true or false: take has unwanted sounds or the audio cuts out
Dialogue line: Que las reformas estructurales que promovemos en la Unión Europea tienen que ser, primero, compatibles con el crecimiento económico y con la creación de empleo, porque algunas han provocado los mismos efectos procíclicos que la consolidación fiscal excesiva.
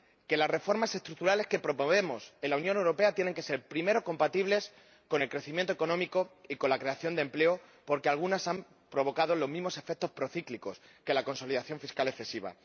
false